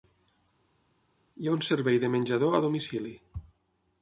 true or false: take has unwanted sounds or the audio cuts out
false